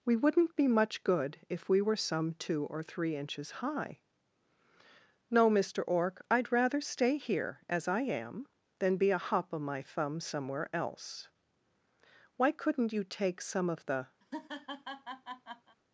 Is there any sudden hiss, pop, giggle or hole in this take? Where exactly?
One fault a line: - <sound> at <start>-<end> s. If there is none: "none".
- laugh at 14.2-15.8 s